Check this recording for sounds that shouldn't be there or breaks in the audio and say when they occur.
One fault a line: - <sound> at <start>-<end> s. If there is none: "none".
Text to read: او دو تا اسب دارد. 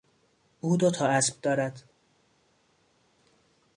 none